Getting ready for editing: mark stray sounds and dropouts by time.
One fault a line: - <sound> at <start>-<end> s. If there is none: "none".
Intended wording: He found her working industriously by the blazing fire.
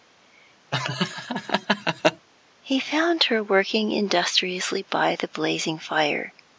- laugh at 0.7-2.3 s